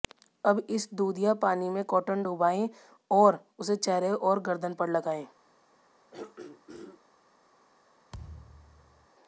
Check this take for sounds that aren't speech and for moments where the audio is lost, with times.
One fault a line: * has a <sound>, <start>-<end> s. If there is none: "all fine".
* has a throat clearing, 6.1-7.0 s
* has a thud, 8.1-9.1 s